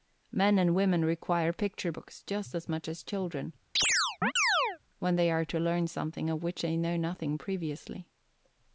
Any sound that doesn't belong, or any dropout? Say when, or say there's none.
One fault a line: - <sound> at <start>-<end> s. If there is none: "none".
- chirp at 3.8-4.8 s